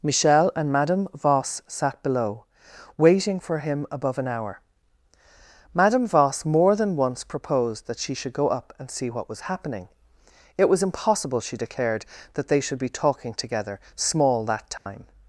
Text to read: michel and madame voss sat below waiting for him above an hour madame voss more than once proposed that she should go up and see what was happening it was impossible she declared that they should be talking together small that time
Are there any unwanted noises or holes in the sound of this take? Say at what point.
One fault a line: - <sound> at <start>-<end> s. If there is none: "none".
- dropout at 14.8-14.9 s